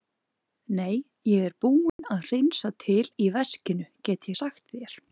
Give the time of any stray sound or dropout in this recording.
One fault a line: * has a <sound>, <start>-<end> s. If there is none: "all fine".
* has a dropout, 1.9-2.0 s